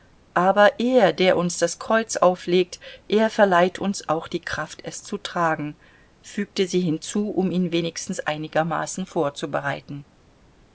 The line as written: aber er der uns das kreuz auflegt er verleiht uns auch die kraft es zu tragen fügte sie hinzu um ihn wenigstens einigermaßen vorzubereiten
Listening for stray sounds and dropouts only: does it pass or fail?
pass